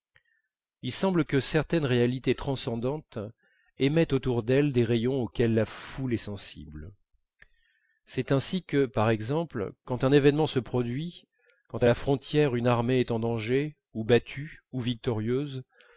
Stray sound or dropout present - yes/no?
no